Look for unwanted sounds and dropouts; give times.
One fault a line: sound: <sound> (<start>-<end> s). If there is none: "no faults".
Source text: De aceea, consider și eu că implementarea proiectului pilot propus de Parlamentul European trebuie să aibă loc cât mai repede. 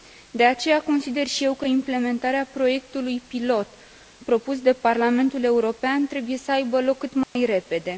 sound: dropout (7.2-7.4 s)